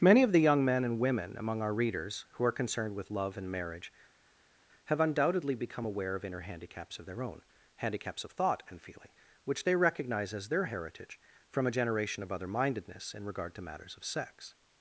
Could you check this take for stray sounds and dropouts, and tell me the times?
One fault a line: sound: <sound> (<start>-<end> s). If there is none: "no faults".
no faults